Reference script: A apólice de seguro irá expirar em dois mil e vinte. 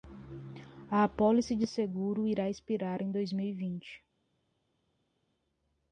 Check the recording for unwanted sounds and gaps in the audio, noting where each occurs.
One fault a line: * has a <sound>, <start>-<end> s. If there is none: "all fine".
all fine